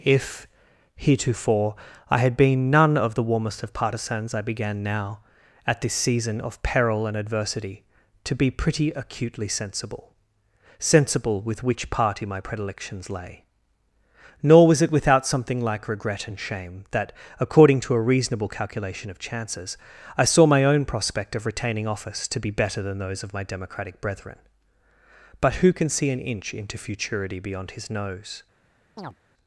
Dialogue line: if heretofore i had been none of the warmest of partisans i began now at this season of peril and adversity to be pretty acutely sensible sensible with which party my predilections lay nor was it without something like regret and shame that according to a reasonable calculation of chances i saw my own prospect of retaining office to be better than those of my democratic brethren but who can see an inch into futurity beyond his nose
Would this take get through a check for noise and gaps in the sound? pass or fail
fail